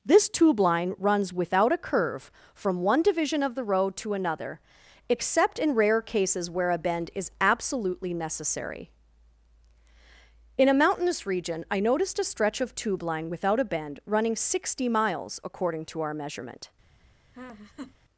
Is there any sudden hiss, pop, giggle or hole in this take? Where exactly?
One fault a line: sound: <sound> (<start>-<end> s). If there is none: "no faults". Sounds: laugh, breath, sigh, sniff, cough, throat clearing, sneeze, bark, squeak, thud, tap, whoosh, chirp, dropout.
sound: laugh (17.3-17.9 s)